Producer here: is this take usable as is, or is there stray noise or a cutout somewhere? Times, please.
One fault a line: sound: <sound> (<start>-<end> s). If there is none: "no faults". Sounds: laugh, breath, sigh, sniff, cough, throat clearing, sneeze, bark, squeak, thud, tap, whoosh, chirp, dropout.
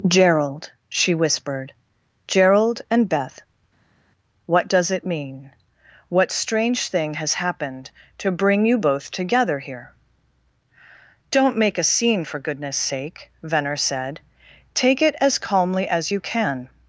no faults